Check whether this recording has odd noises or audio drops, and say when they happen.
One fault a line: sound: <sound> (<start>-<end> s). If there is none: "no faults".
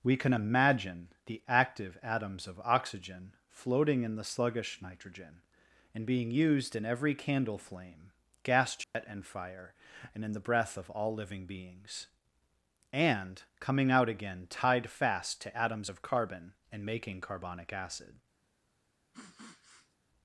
sound: dropout (8.8-8.9 s)
sound: sniff (19.1-20.0 s)